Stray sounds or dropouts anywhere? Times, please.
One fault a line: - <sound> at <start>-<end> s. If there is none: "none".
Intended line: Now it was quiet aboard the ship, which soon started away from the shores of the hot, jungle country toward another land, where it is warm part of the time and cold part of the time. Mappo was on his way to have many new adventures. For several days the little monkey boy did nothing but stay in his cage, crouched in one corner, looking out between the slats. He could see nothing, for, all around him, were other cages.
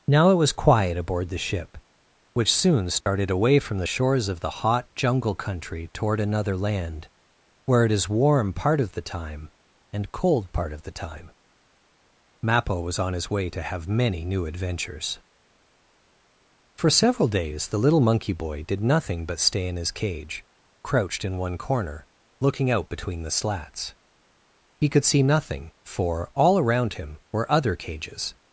- dropout at 3.0-3.1 s